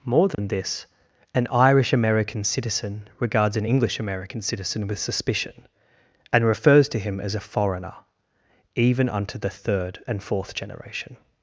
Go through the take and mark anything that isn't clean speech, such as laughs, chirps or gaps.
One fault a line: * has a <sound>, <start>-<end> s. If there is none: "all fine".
* has a dropout, 0.3-0.4 s